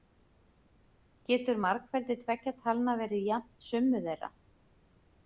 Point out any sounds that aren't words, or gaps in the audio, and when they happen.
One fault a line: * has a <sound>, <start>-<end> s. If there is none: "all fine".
all fine